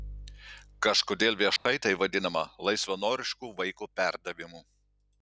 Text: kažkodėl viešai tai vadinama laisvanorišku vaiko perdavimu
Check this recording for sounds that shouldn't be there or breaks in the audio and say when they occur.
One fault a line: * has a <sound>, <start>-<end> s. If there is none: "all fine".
* has a dropout, 1.6-1.7 s